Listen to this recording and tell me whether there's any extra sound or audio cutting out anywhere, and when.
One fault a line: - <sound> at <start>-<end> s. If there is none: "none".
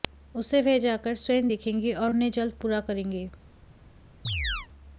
- chirp at 4.2-4.7 s